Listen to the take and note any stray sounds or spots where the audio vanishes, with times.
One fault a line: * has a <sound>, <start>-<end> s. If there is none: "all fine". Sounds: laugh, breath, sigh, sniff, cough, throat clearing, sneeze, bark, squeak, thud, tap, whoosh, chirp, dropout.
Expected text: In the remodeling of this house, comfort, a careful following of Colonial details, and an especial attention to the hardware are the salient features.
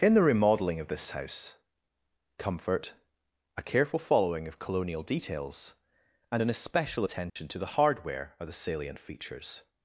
* has a dropout, 7.3-7.4 s